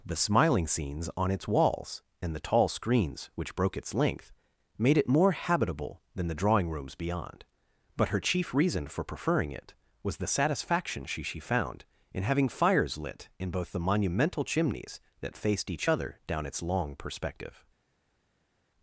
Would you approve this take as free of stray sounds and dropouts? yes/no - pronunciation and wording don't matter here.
yes